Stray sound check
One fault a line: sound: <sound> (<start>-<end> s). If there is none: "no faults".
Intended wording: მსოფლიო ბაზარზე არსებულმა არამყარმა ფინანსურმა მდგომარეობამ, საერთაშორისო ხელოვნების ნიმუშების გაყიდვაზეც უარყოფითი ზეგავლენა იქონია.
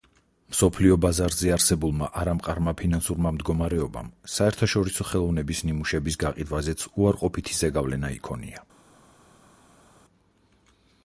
no faults